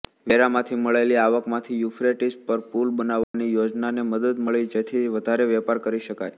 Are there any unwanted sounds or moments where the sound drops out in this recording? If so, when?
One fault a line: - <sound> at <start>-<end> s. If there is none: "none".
- dropout at 3.2-3.3 s